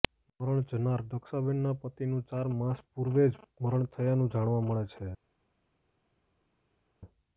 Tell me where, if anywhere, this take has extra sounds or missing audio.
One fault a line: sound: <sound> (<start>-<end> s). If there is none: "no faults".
no faults